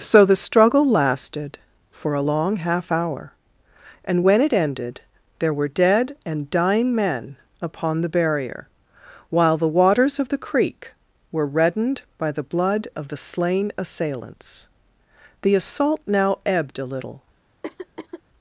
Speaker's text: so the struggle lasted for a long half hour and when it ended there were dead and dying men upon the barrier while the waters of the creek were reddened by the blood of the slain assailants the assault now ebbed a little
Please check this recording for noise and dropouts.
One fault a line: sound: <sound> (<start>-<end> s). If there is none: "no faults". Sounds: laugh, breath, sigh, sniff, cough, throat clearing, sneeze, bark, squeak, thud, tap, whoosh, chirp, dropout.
sound: throat clearing (17.6-18.2 s)